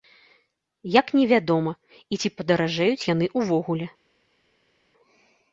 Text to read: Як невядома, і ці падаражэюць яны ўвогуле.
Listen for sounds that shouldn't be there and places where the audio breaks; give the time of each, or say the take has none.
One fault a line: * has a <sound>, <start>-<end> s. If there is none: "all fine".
all fine